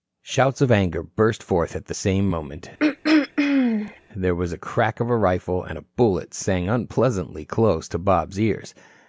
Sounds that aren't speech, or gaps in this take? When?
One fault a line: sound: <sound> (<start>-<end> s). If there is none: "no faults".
sound: throat clearing (2.8-4.0 s)